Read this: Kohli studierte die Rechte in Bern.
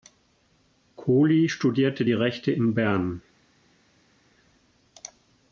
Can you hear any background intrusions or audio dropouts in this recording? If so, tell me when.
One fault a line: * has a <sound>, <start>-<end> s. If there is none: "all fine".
all fine